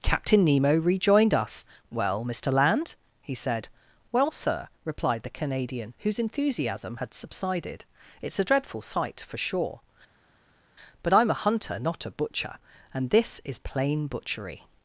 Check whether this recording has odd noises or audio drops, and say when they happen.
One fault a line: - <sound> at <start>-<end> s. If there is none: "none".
none